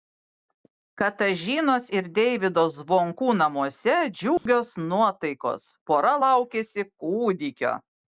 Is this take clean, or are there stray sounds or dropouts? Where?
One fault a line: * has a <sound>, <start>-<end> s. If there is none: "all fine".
* has a dropout, 4.4-4.5 s